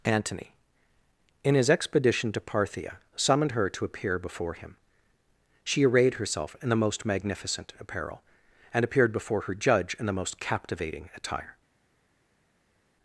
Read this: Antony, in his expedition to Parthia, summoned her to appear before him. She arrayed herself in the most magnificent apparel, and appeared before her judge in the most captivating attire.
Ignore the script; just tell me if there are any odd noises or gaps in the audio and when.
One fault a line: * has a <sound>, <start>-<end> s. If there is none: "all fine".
all fine